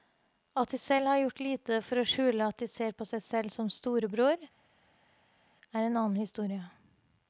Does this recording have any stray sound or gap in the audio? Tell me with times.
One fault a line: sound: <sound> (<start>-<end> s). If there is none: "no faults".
no faults